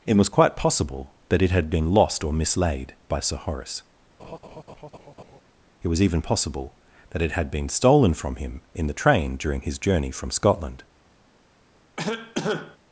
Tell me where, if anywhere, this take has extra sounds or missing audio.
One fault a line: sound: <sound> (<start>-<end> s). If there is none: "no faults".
sound: laugh (4.2-5.4 s)
sound: cough (12.0-12.8 s)